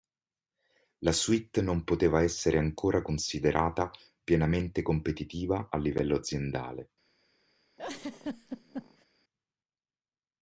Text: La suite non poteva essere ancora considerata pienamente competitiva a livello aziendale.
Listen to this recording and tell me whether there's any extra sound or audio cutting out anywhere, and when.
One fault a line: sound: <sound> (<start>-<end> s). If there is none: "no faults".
sound: laugh (7.8-9.1 s)